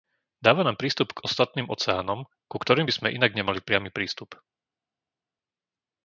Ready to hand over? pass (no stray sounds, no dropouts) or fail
pass